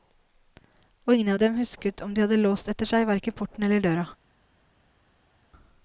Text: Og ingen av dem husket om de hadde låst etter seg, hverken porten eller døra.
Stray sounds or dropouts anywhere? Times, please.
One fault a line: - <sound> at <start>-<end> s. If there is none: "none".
none